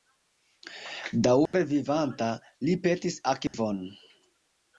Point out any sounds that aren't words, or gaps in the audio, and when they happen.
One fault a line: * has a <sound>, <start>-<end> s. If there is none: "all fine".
* has a dropout, 1.5-1.5 s
* has a dropout, 3.5-3.5 s